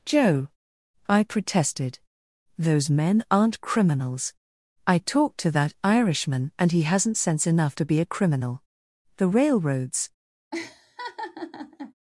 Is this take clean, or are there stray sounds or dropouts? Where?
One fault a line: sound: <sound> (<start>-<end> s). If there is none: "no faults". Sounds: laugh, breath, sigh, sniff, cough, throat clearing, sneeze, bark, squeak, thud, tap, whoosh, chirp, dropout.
sound: laugh (10.5-11.9 s)